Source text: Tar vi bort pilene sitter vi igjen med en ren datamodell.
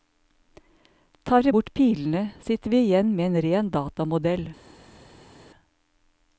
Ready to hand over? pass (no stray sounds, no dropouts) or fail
pass